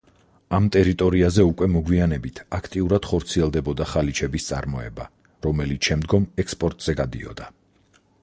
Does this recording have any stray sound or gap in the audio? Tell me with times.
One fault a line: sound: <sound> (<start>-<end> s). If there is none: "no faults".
no faults